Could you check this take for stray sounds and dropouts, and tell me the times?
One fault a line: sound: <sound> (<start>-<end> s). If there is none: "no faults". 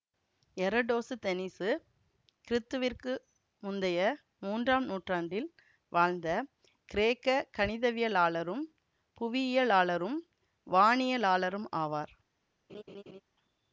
sound: laugh (12.7-13.2 s)